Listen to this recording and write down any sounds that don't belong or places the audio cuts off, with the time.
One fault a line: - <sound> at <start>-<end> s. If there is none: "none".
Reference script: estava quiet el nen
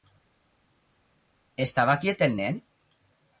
none